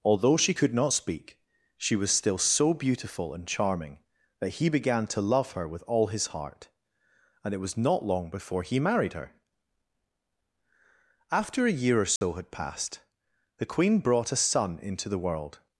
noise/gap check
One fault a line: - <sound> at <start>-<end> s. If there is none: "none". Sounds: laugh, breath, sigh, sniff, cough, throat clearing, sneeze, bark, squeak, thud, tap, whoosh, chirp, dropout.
- dropout at 12.2-12.2 s